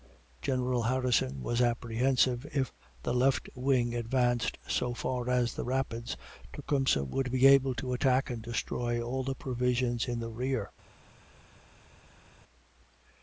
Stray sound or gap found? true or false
false